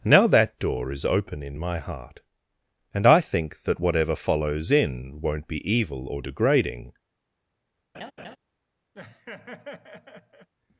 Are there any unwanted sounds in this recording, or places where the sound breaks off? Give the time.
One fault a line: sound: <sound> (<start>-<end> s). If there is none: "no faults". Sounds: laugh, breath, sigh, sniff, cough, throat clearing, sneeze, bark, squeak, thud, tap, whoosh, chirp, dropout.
sound: laugh (7.9-8.4 s)
sound: laugh (8.9-10.5 s)